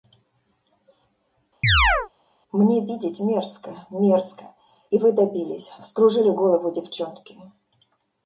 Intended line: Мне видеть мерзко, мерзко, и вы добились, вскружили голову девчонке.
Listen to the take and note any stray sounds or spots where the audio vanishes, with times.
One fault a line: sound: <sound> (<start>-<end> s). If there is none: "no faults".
sound: chirp (1.6-2.1 s)